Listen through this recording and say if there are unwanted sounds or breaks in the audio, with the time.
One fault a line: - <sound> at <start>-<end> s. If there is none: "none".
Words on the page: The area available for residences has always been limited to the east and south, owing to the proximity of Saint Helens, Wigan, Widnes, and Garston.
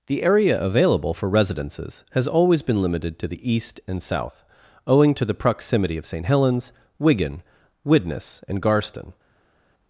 none